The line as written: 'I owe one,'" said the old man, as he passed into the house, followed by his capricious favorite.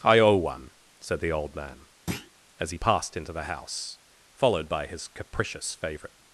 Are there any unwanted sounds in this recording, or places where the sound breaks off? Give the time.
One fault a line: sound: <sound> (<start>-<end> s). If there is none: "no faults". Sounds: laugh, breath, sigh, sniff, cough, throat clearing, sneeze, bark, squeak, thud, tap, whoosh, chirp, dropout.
sound: thud (2.1-2.3 s)